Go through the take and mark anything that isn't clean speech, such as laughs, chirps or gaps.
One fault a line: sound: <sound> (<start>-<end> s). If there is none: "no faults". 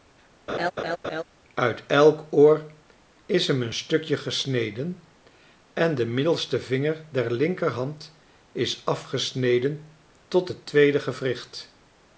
sound: laugh (0.5-1.2 s)